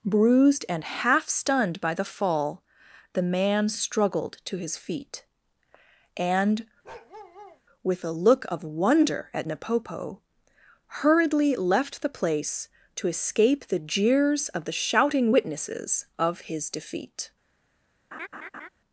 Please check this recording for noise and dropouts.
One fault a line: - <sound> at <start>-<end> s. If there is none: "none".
- bark at 6.8-7.6 s
- laugh at 18.1-18.7 s